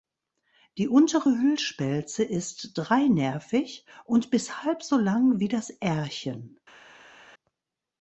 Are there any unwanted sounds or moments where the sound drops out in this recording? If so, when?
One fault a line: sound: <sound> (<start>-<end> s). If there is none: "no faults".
no faults